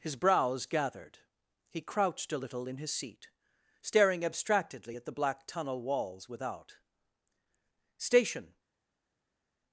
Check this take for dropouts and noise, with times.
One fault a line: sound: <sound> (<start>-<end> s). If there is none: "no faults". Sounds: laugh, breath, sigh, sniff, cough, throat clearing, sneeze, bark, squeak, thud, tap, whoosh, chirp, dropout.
no faults